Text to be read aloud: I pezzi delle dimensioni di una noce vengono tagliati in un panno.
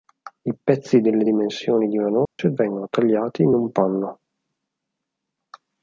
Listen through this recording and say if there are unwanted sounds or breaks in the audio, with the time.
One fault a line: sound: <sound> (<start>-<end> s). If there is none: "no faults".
sound: dropout (2.3-2.4 s)